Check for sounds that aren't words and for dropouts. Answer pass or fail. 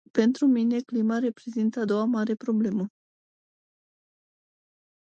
pass